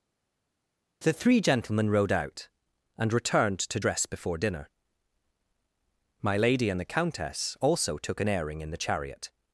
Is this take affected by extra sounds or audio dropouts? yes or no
no